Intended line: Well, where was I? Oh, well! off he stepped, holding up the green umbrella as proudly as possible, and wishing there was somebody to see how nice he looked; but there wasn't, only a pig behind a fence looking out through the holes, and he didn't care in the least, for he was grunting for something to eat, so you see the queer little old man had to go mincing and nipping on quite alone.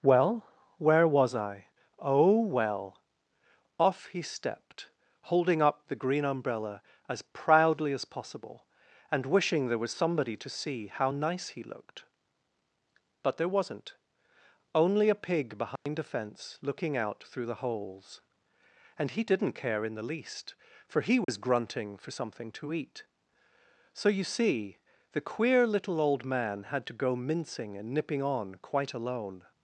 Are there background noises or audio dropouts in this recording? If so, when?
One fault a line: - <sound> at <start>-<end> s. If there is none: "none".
- dropout at 15.8-15.9 s
- dropout at 21.2-21.3 s